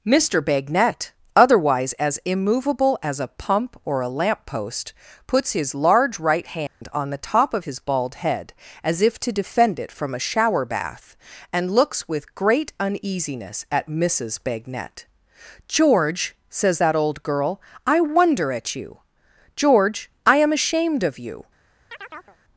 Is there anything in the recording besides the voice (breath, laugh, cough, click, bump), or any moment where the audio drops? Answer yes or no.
yes